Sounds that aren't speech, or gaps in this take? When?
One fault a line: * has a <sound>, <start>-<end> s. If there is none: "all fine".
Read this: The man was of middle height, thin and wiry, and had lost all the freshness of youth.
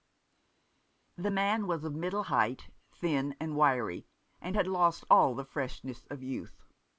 all fine